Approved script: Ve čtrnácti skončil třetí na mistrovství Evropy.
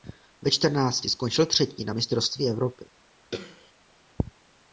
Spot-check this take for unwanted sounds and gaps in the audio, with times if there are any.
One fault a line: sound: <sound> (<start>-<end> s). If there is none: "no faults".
sound: throat clearing (3.3-3.7 s)